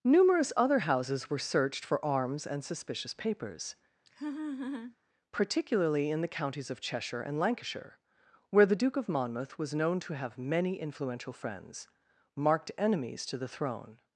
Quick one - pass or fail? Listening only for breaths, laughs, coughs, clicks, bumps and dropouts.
fail